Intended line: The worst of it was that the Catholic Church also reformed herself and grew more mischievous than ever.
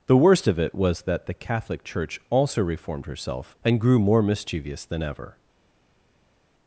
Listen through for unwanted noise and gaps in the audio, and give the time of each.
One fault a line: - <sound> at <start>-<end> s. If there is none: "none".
none